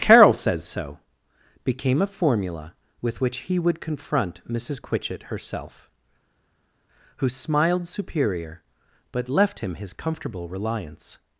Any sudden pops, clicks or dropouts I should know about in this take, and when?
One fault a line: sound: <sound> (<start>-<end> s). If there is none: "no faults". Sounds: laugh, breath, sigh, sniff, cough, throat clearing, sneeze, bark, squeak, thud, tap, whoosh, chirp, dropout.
no faults